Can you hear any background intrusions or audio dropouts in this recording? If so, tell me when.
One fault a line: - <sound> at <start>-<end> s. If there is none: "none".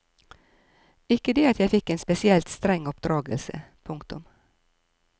none